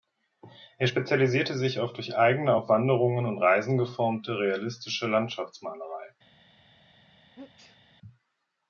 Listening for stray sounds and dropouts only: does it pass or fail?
fail